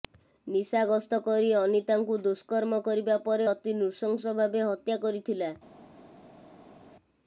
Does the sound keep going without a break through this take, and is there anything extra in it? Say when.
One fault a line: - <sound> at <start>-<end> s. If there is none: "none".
none